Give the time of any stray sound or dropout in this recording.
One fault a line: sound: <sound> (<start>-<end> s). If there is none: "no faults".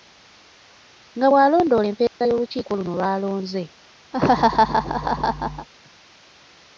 sound: dropout (2.1-2.2 s)
sound: laugh (4.1-5.7 s)